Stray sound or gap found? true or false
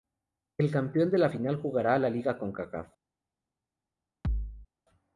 true